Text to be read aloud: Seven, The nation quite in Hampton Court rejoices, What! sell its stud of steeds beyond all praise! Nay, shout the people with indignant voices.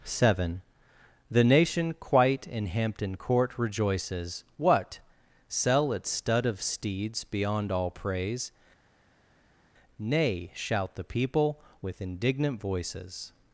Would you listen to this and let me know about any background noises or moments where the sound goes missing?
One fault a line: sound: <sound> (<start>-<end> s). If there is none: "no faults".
no faults